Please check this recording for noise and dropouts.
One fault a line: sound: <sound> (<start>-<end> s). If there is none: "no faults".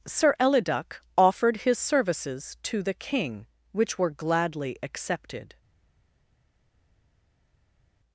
no faults